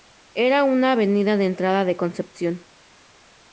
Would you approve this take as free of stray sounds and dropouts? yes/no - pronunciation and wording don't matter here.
yes